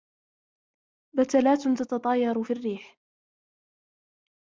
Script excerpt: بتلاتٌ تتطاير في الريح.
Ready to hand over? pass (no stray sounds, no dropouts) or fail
pass